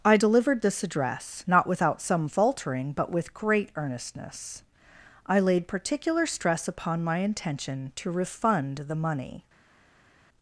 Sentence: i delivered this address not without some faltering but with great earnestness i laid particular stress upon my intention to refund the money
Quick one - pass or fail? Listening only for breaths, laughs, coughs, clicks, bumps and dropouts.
pass